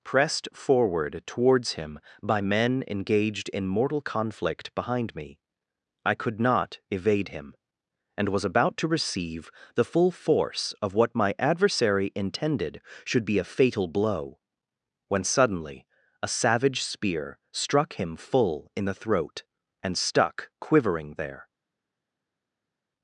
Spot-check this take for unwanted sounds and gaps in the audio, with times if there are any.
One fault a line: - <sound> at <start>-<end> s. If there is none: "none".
none